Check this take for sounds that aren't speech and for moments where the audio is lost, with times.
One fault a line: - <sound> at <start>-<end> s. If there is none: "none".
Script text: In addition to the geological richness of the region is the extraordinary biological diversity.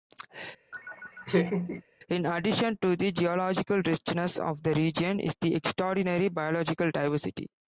- laugh at 0.7-1.8 s